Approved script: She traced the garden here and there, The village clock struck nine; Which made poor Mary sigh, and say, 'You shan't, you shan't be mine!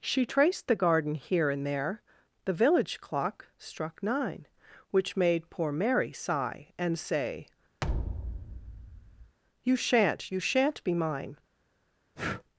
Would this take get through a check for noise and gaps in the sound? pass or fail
fail